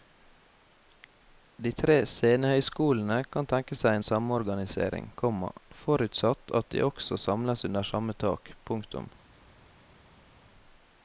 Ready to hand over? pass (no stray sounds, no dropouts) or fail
pass